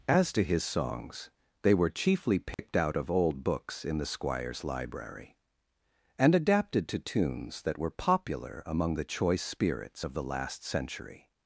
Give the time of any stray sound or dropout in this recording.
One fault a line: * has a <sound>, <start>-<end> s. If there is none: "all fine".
* has a dropout, 2.5-2.6 s